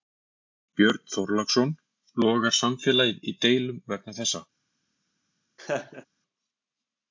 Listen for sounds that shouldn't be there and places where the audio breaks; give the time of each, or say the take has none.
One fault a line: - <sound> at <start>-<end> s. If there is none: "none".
- laugh at 5.6-6.1 s